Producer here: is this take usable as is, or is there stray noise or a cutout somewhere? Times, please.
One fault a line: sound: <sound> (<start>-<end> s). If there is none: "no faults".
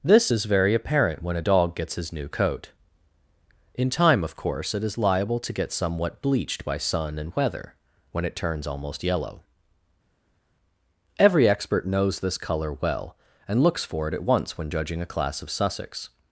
no faults